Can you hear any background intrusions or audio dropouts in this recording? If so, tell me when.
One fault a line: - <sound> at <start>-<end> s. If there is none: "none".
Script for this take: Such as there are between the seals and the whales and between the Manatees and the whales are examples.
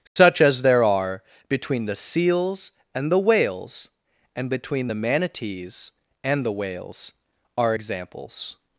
- dropout at 0.1-0.2 s